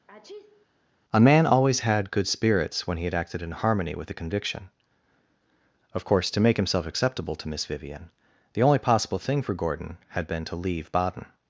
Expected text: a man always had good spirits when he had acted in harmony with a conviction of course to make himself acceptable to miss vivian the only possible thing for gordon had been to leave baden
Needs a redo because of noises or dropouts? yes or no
yes